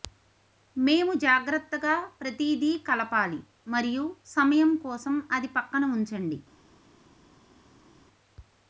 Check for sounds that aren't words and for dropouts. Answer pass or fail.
pass